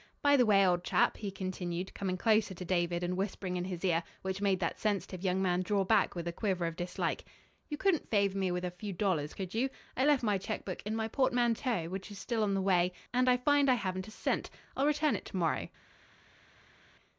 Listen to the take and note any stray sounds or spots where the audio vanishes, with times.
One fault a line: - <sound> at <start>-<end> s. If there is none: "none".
none